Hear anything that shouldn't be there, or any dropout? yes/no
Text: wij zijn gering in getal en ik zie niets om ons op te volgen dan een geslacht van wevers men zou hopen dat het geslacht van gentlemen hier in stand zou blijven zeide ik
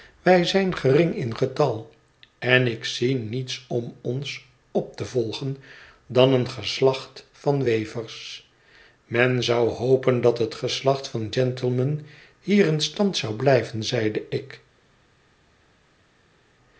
no